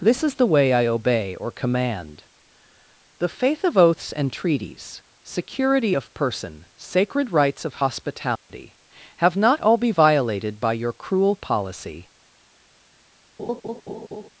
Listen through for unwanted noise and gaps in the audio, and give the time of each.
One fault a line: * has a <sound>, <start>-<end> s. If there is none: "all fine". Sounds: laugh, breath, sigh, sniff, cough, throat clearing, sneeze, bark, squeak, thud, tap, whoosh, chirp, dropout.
* has a dropout, 8.4-8.5 s
* has a laugh, 13.4-14.3 s